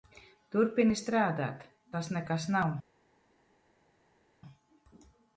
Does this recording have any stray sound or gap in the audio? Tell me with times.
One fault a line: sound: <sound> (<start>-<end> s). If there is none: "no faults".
no faults